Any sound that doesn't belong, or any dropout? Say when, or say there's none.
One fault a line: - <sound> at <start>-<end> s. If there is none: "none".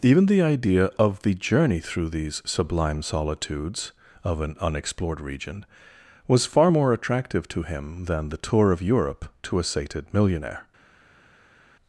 none